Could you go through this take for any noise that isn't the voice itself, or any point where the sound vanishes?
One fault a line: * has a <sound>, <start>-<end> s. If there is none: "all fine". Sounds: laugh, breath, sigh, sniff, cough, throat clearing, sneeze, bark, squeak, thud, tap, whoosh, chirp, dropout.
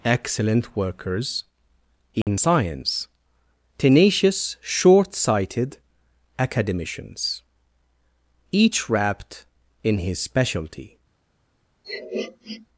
* has a dropout, 2.2-2.3 s
* has a sniff, 11.8-12.7 s